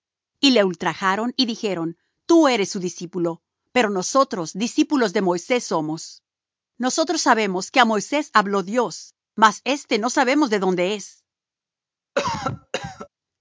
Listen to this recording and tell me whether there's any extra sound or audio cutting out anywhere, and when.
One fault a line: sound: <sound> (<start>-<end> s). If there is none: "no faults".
sound: cough (12.2-13.1 s)